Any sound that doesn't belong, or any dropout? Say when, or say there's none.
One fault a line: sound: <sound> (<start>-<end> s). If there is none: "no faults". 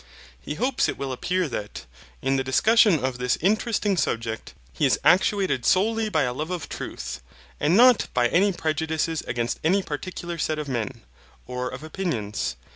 no faults